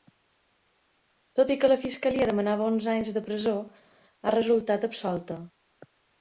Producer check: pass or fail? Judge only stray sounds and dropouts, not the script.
pass